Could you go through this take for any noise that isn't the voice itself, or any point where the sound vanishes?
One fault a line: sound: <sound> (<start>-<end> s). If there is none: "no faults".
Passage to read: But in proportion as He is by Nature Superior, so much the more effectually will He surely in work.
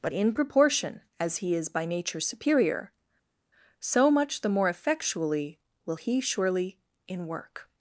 no faults